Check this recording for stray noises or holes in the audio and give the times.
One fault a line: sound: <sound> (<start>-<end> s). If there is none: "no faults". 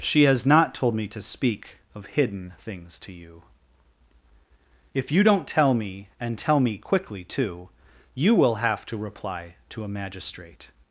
no faults